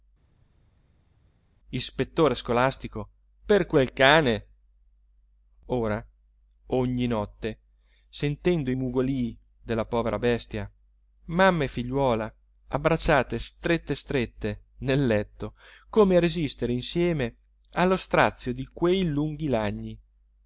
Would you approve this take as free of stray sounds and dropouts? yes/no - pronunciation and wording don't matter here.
yes